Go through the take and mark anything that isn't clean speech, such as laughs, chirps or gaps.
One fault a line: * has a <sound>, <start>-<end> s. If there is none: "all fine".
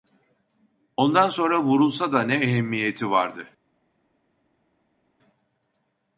all fine